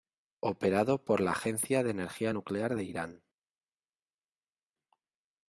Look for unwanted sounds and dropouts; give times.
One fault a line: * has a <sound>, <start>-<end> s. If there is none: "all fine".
all fine